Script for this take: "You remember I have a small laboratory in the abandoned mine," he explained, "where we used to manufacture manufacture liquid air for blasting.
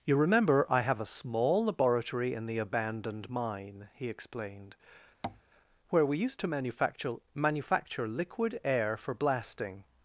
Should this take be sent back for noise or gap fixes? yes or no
yes